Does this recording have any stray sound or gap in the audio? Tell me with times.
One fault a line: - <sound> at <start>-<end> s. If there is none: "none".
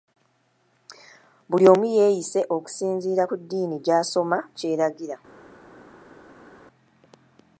none